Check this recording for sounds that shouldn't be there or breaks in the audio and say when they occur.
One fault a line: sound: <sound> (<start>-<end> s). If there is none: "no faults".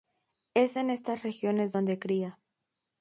no faults